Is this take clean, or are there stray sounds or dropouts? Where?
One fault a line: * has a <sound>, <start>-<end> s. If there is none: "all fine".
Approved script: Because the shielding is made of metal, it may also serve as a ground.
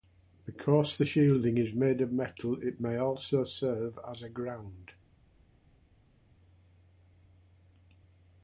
all fine